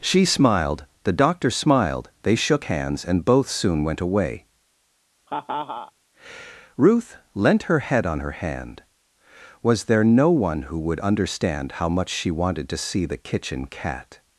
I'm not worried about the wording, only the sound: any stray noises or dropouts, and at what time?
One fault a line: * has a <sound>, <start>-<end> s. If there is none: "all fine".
* has a laugh, 5.3-5.9 s